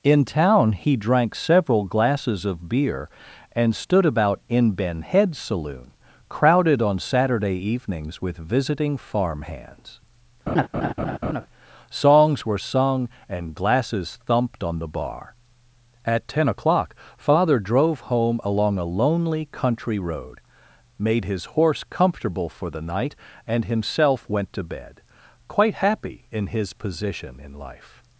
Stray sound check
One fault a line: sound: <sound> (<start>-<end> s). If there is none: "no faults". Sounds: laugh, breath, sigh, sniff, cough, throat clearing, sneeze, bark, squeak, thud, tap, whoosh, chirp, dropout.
sound: laugh (10.5-11.5 s)